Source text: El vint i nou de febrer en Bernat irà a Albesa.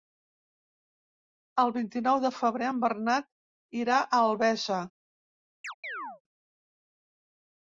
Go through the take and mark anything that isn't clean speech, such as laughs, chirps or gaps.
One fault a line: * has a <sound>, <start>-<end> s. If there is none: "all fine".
* has a chirp, 5.6-6.2 s